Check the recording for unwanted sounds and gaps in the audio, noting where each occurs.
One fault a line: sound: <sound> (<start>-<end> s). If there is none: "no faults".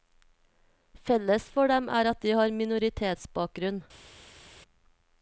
no faults